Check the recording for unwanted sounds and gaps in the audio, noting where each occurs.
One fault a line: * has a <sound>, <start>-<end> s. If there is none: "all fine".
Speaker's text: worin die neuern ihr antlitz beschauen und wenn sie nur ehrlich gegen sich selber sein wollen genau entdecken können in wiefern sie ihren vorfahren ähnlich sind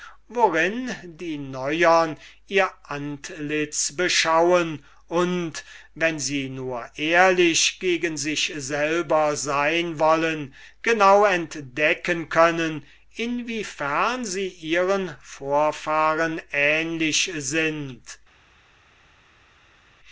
all fine